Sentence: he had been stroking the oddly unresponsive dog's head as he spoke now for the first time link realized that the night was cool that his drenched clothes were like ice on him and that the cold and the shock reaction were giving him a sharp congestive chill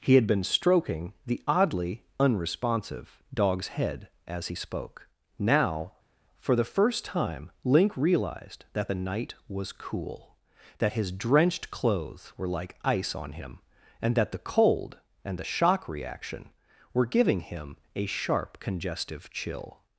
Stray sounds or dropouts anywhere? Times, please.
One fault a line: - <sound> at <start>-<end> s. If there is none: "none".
none